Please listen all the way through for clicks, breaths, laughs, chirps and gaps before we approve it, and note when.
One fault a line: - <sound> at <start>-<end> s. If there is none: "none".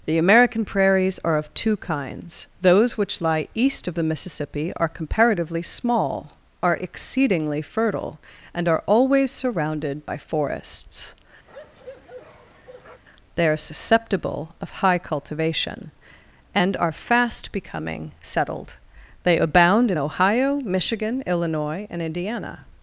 - bark at 11.5-13.0 s